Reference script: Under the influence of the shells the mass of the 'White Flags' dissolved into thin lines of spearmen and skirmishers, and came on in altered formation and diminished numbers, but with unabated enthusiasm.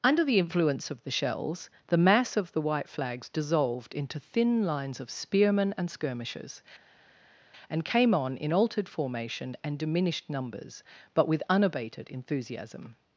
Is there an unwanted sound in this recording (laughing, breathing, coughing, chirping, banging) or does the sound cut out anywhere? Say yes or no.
no